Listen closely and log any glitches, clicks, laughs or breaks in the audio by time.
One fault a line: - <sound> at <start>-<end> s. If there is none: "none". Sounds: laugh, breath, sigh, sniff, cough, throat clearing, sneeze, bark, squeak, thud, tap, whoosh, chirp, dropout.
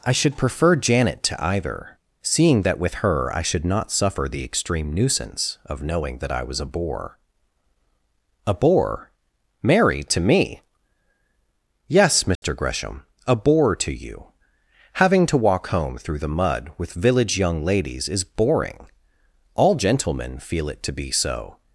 - dropout at 12.3-12.4 s